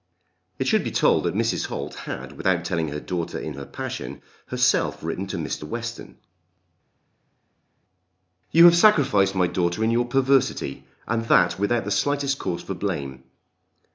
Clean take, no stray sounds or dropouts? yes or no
yes